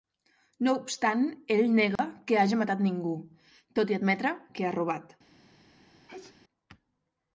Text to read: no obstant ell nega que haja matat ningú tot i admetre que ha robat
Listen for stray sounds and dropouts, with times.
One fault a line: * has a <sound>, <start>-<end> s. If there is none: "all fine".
* has a dropout, 2.0-2.0 s
* has a sneeze, 6.1-6.4 s